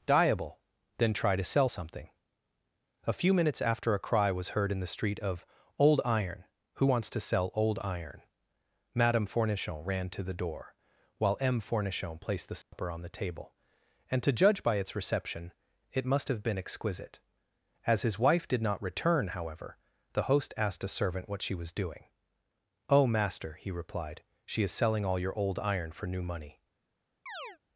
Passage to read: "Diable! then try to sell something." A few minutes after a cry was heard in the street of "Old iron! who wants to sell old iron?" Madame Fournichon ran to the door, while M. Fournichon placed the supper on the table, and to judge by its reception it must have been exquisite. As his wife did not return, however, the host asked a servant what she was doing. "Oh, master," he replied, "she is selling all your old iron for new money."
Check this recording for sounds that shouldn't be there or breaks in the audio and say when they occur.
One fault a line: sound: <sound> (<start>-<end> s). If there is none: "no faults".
sound: dropout (12.6-12.7 s)
sound: chirp (27.3-27.6 s)